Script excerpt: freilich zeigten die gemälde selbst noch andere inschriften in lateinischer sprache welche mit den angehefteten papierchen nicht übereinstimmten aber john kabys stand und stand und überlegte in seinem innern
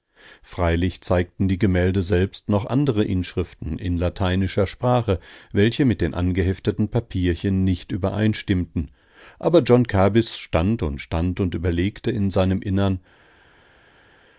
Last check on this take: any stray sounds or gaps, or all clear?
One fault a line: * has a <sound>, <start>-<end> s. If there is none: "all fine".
all fine